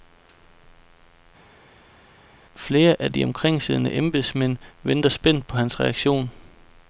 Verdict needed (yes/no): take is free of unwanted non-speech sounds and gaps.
yes